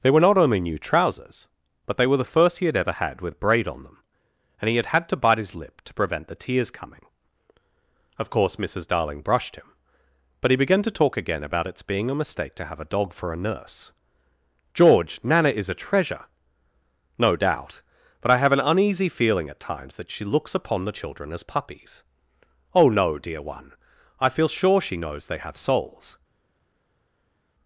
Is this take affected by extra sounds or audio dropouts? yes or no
no